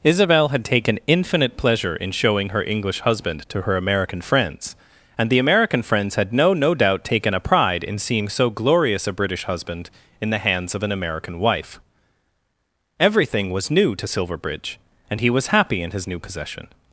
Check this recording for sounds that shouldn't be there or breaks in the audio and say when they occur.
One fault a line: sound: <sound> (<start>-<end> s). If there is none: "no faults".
no faults